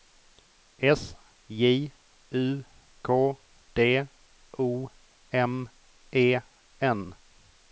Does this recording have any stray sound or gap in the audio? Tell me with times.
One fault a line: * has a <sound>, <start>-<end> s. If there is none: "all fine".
all fine